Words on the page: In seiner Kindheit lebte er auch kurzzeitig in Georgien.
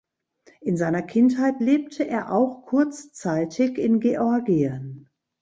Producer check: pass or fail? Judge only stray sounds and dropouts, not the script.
pass